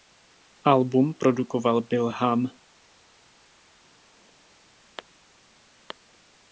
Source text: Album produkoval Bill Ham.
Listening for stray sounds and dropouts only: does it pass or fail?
pass